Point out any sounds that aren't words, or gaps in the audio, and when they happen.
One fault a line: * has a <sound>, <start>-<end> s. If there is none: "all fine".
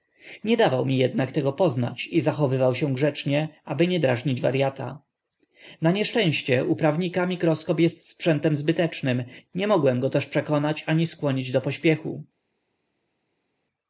all fine